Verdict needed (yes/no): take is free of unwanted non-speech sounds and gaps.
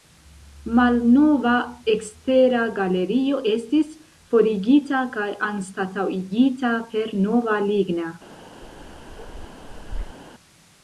no